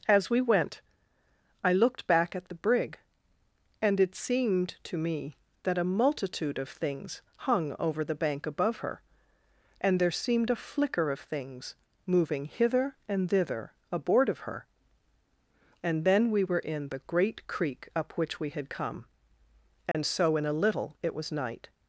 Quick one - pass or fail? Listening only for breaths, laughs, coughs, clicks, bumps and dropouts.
fail